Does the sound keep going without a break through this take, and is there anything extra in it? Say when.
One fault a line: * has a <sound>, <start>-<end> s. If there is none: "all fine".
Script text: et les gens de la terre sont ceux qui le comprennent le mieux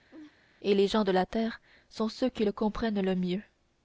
* has a laugh, 0.1-0.3 s